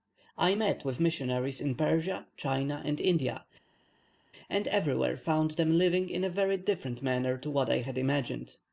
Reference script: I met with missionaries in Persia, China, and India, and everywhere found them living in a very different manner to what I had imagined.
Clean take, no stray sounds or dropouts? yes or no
yes